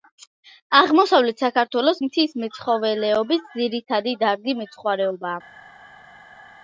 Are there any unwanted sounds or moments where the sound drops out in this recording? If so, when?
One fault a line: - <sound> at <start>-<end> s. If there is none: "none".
none